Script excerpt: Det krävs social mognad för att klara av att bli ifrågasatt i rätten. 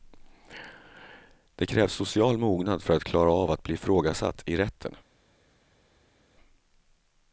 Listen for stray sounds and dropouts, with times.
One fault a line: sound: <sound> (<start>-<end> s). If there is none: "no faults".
no faults